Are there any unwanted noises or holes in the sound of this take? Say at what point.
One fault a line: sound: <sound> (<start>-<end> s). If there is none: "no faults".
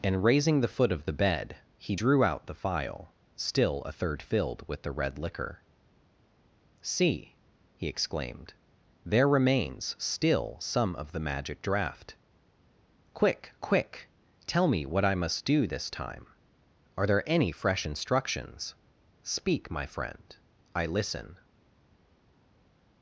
no faults